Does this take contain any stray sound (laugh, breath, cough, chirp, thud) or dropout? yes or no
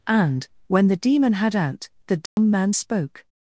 yes